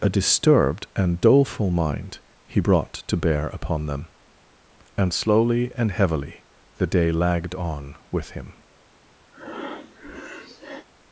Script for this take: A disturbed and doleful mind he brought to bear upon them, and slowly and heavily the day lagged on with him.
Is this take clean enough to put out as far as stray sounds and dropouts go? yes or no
no